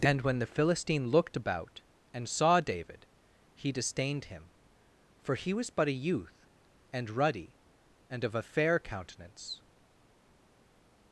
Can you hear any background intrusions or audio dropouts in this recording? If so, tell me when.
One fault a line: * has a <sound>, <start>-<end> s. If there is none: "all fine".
all fine